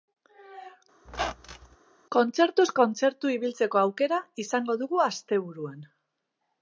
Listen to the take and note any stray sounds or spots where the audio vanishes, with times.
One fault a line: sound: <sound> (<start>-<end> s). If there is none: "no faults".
sound: squeak (1.1-1.8 s)